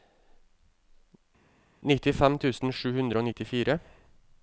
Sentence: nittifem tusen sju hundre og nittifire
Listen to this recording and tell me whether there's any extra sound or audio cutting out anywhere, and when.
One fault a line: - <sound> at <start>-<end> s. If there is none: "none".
none